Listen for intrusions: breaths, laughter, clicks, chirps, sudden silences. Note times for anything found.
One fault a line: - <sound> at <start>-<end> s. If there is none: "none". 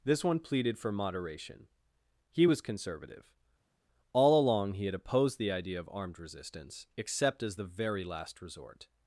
none